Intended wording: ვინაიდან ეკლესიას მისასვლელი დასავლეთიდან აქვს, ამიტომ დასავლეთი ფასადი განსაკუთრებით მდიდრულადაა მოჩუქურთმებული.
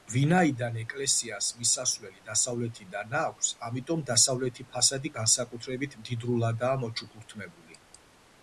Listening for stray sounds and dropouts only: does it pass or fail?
pass